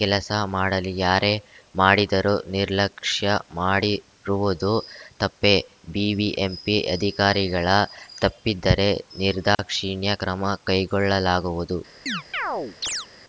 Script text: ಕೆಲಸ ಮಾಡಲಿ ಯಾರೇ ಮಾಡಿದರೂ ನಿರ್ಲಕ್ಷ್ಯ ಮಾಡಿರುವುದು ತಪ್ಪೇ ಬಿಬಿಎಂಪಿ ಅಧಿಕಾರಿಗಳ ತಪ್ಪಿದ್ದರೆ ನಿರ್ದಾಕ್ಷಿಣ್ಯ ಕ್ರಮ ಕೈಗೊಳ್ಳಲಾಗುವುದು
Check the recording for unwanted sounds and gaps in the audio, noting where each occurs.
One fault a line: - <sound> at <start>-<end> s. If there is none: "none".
- dropout at 9.5-9.6 s
- chirp at 12.1-13.1 s